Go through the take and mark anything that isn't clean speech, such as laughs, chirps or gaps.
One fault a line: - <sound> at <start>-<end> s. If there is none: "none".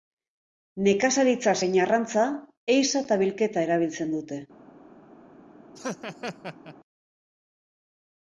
- laugh at 5.8-6.8 s